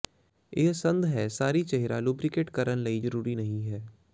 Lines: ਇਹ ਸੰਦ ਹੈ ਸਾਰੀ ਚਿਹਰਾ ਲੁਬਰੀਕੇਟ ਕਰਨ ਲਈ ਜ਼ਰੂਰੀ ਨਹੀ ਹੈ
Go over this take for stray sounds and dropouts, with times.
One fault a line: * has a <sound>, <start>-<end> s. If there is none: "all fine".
all fine